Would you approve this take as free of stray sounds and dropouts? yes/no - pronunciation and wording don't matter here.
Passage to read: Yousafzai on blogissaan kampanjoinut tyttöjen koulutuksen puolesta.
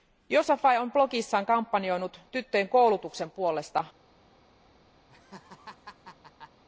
no